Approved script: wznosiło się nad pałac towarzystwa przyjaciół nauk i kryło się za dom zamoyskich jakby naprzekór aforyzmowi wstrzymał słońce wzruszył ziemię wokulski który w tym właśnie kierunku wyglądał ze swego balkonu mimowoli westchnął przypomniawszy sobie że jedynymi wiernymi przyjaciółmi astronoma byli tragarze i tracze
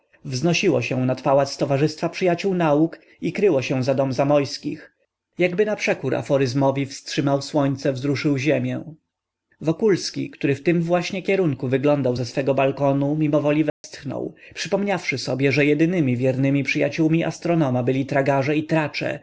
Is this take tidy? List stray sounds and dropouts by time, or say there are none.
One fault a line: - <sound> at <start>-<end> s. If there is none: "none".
- dropout at 13.7-13.8 s